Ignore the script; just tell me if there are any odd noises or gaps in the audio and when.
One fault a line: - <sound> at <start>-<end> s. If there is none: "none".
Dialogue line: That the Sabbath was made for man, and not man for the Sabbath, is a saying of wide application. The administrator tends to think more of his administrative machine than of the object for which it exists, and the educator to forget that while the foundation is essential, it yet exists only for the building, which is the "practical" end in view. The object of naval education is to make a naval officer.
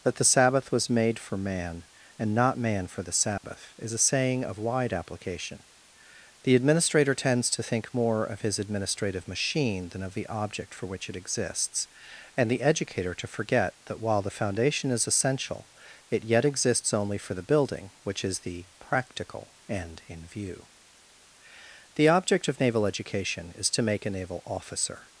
- dropout at 3.4-3.4 s